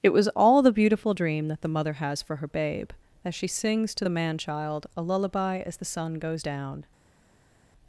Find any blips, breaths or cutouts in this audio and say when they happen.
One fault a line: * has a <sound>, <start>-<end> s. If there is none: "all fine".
all fine